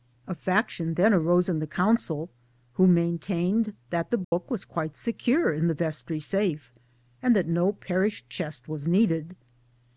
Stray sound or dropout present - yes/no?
yes